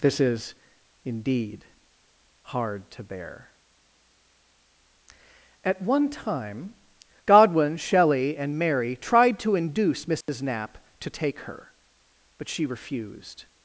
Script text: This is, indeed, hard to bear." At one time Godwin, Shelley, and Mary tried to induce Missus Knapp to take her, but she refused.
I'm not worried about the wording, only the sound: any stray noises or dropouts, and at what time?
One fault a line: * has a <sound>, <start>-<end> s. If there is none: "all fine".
* has a dropout, 10.2-10.3 s